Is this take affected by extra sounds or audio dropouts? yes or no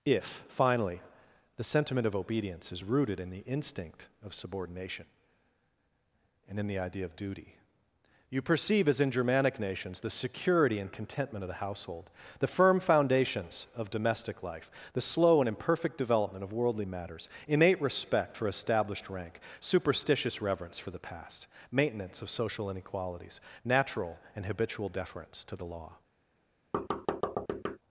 yes